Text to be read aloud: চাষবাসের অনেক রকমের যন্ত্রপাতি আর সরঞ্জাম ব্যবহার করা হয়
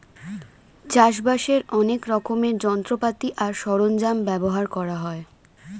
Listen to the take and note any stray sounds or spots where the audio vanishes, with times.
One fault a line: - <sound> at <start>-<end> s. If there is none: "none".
none